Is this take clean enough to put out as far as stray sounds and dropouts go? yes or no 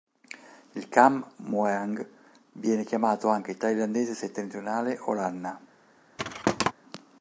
no